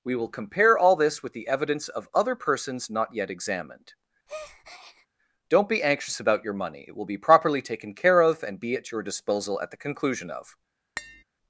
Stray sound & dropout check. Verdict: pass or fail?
fail